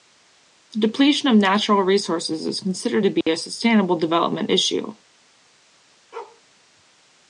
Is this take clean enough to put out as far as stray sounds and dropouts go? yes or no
no